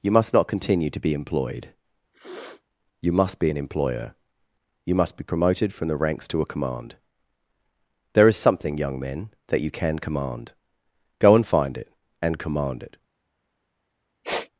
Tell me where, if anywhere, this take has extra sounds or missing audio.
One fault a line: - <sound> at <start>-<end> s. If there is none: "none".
- sniff at 2.1-2.6 s
- sniff at 14.2-14.5 s